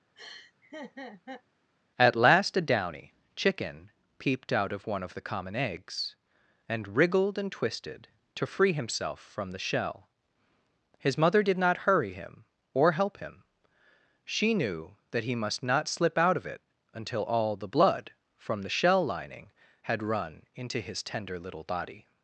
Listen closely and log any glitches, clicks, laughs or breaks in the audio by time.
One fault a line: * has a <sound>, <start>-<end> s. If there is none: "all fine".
* has a laugh, 0.2-1.4 s